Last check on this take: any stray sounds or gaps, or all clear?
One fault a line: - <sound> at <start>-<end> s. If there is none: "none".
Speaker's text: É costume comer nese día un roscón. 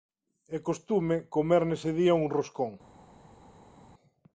none